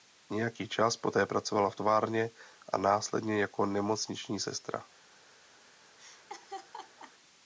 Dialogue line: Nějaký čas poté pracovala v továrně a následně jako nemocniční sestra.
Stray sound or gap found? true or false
true